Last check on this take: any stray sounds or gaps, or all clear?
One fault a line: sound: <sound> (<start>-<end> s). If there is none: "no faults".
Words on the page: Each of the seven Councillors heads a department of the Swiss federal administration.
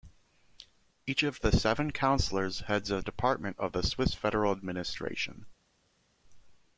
no faults